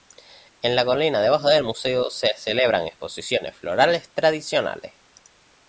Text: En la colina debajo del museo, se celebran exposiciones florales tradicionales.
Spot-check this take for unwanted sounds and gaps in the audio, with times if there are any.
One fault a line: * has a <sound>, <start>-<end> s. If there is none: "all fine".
all fine